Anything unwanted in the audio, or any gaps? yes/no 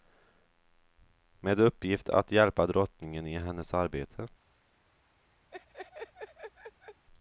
yes